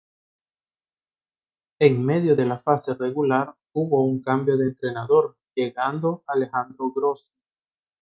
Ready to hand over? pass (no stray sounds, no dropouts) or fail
pass